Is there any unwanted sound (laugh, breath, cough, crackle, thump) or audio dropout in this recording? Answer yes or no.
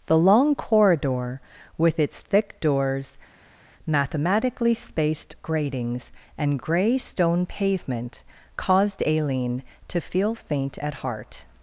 no